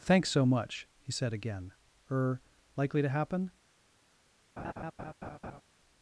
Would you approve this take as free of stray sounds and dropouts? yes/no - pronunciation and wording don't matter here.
no